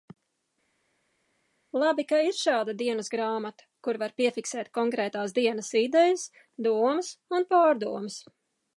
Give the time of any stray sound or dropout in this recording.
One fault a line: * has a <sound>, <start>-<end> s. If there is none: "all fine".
all fine